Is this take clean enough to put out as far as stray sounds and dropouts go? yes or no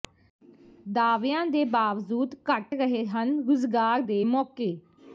yes